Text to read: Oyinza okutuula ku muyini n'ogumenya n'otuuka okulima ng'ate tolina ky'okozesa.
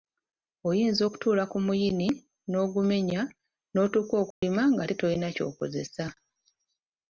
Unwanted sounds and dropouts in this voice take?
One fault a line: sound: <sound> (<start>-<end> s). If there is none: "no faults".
sound: dropout (4.3-4.4 s)